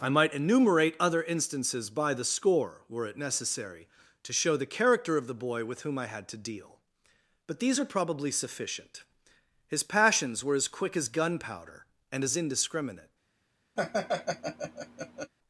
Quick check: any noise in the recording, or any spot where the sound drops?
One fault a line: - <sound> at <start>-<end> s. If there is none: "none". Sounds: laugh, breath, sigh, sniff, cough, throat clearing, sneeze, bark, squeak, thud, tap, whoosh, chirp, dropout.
- laugh at 13.8-15.3 s